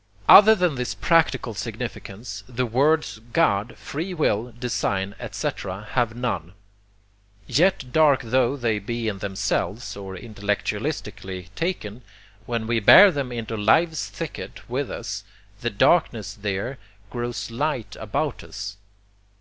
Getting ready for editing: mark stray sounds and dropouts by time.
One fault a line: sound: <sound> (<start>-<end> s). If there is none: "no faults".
no faults